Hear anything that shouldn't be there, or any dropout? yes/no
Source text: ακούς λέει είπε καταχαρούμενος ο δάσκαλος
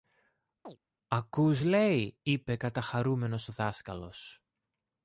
yes